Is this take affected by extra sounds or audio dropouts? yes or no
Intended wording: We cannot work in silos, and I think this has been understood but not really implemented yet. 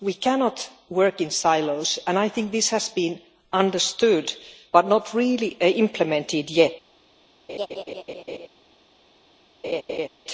yes